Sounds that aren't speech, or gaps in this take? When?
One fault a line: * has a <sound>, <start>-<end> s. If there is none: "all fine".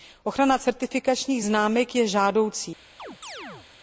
* has a chirp, 3.0-3.7 s